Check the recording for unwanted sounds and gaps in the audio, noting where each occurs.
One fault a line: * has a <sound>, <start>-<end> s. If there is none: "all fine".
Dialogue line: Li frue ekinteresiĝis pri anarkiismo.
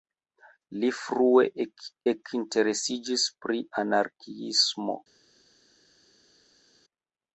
all fine